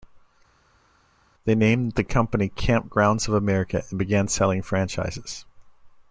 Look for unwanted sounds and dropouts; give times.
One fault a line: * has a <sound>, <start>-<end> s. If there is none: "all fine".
all fine